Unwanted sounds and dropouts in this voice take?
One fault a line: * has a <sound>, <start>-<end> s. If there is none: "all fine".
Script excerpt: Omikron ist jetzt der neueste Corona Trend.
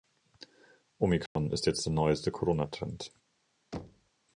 * has a dropout, 1.3-1.4 s
* has a thud, 3.7-4.1 s